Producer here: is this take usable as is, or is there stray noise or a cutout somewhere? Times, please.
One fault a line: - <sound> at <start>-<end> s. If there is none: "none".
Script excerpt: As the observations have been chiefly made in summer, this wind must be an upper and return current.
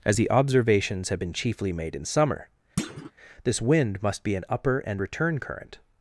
- thud at 2.8-3.1 s